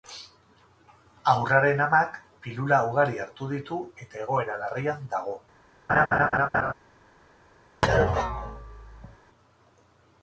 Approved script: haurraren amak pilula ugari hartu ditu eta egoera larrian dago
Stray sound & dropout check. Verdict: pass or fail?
fail